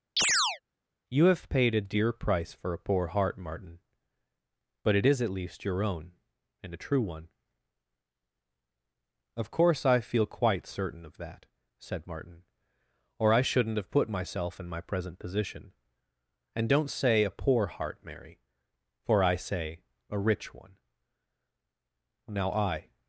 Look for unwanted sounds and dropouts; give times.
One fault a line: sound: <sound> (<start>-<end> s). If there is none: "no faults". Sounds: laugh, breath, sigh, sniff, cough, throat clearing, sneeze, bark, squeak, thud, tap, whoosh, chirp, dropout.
sound: chirp (0.2-0.6 s)